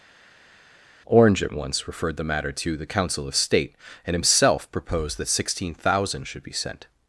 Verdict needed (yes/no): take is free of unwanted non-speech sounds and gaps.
yes